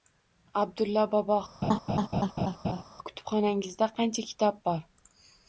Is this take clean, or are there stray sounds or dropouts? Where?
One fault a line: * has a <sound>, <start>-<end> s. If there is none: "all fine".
* has a laugh, 1.6-2.8 s